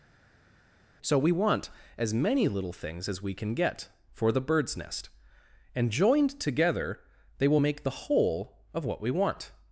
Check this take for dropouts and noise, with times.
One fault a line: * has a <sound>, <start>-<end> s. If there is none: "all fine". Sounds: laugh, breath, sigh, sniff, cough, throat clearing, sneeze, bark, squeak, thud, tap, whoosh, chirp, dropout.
all fine